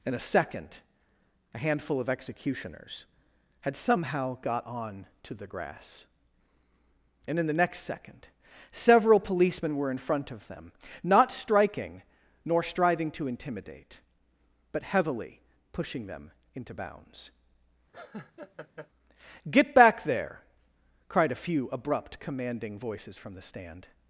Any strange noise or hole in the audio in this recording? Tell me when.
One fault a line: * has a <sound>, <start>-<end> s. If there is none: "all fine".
* has a laugh, 17.9-18.9 s